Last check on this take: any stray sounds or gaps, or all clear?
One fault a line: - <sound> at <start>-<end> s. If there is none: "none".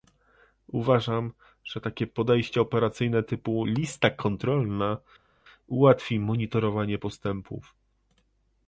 none